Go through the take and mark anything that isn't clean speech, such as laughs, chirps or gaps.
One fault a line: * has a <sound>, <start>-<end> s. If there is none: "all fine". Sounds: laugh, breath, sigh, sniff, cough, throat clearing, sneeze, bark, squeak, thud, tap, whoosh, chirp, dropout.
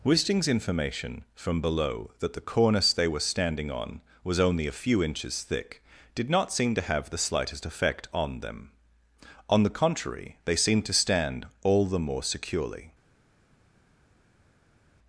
all fine